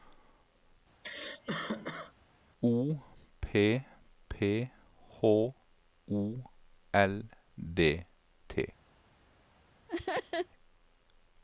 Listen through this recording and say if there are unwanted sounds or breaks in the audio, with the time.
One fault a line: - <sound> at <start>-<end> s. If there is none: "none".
- cough at 1.0-2.1 s
- laugh at 9.9-10.5 s